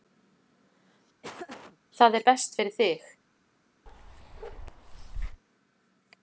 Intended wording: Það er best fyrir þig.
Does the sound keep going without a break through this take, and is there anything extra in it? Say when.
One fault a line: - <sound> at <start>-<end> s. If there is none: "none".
- laugh at 1.2-1.8 s
- bark at 3.9-5.4 s